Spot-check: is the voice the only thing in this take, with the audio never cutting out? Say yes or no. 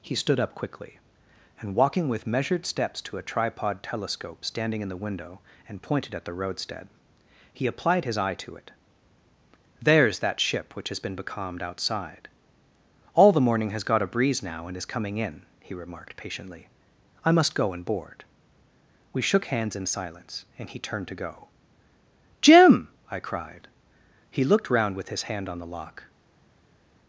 yes